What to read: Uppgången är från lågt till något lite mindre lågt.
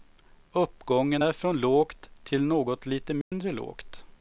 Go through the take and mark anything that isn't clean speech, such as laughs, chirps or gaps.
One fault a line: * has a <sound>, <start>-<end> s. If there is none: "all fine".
* has a dropout, 3.2-3.3 s